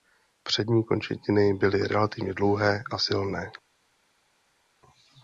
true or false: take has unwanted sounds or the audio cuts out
false